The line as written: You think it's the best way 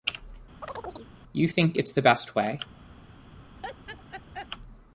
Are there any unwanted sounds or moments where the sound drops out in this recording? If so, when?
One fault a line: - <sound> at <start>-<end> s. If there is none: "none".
- chirp at 0.6-1.1 s
- laugh at 3.6-4.5 s